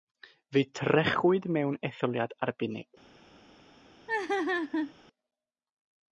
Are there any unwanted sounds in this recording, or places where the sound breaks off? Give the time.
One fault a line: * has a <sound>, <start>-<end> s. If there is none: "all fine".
* has a laugh, 4.1-4.9 s